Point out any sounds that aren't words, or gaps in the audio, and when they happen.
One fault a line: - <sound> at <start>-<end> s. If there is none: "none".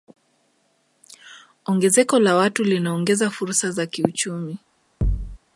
- thud at 5.0-5.4 s